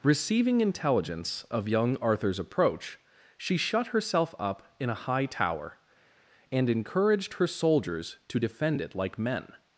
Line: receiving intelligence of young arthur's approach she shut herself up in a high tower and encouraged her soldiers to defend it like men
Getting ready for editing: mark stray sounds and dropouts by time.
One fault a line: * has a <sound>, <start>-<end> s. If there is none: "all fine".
all fine